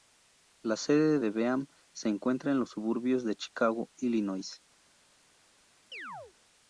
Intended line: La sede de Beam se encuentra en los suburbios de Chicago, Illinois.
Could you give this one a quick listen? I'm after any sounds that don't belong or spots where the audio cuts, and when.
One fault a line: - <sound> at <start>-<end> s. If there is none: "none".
- chirp at 5.9-6.3 s